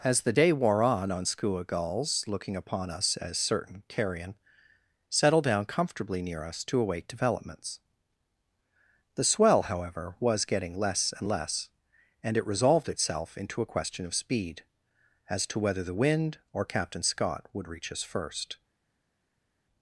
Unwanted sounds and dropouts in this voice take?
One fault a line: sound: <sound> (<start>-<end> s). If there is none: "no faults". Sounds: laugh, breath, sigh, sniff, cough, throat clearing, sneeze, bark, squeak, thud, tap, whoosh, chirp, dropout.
no faults